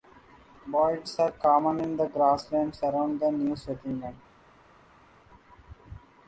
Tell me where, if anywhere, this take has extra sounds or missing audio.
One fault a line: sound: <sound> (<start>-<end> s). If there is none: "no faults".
no faults